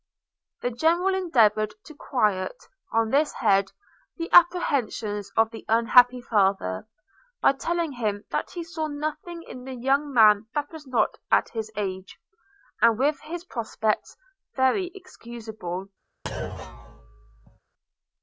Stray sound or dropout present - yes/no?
yes